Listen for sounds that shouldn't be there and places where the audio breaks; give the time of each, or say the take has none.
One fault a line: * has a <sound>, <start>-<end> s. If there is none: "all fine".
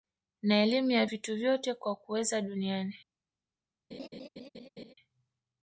* has a laugh, 3.9-4.9 s